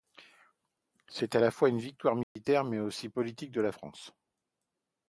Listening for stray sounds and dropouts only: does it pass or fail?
fail